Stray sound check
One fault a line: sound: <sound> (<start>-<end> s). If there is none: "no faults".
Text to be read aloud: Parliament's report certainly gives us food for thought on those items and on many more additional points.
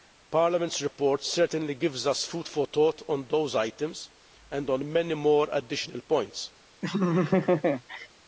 sound: laugh (6.8-8.1 s)